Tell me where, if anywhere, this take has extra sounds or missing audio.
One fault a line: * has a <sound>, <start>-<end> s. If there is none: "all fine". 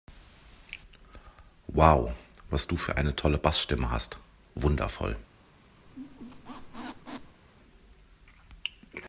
* has a squeak, 5.9-7.4 s